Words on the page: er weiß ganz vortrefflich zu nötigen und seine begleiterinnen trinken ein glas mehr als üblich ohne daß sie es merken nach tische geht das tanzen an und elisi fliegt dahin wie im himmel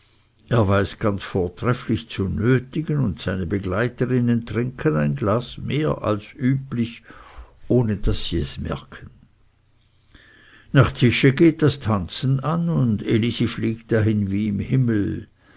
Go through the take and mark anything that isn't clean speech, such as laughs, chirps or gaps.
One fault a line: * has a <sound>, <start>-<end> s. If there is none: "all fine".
all fine